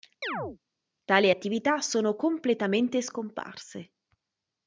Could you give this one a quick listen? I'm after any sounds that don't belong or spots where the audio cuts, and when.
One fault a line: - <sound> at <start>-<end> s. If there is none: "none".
- chirp at 0.2-0.6 s